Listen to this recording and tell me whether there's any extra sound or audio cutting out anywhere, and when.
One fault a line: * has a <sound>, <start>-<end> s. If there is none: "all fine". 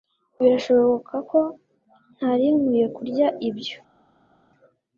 all fine